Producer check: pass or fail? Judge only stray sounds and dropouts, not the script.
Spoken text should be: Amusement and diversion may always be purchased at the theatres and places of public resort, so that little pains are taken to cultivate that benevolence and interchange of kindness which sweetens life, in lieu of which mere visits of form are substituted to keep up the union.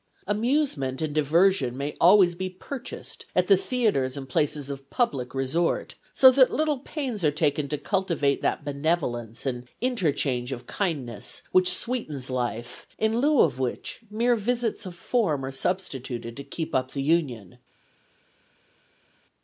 pass